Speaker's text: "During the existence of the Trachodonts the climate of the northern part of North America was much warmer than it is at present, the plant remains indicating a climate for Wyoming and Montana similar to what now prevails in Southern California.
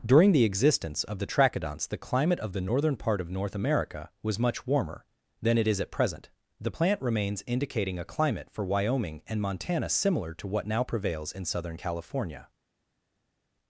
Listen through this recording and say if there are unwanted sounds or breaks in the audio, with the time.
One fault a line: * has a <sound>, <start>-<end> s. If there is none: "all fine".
all fine